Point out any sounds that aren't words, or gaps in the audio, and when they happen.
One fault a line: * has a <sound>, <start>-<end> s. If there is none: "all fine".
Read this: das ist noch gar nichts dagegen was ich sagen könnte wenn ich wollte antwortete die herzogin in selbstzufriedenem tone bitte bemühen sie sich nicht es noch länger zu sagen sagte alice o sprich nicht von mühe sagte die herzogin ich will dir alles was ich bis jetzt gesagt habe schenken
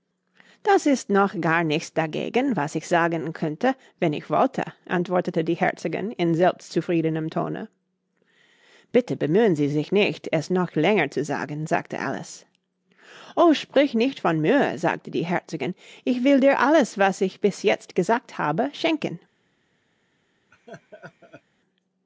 * has a laugh, 20.5-21.4 s